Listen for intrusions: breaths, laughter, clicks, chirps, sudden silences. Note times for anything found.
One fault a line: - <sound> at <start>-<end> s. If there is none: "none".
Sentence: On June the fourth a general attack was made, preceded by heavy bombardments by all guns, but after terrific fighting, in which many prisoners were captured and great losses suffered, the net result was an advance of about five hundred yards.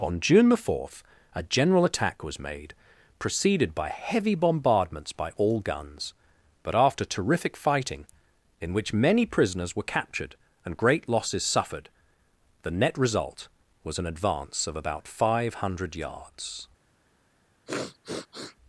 - sniff at 17.7-18.6 s